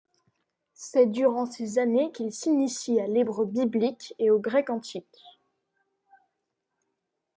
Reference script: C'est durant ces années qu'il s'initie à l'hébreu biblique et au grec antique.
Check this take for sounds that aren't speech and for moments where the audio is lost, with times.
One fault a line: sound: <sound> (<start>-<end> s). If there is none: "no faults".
no faults